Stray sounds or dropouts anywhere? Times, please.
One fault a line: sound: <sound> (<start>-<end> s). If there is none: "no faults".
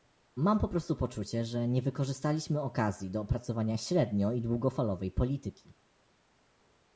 no faults